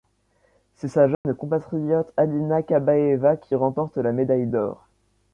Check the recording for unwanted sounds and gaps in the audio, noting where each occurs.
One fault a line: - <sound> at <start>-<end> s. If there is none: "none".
- dropout at 1.1-1.2 s